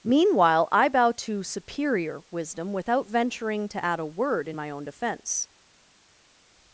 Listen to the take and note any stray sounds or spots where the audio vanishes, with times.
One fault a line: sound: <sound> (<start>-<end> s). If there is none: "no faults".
no faults